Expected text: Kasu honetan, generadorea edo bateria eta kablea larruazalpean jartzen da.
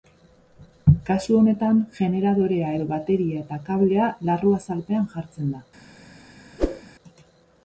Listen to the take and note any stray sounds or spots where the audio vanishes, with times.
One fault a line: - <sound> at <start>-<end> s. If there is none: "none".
- whoosh at 6.6-6.8 s